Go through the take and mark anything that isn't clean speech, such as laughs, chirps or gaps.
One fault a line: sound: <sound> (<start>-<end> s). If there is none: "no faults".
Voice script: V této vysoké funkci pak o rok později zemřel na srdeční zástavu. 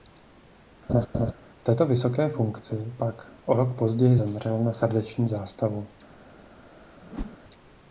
sound: laugh (0.9-1.3 s)
sound: whoosh (7.0-7.4 s)